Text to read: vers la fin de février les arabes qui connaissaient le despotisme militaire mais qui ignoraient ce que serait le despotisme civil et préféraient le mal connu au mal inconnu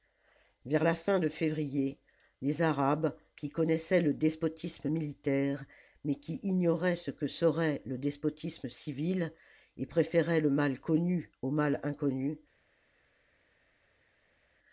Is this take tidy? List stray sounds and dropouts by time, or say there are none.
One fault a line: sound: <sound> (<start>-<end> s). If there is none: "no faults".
no faults